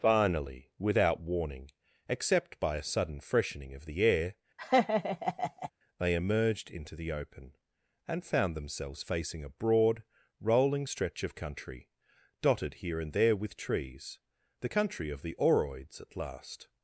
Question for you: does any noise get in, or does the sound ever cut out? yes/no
yes